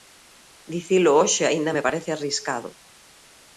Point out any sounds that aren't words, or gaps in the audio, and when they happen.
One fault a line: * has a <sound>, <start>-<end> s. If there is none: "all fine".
all fine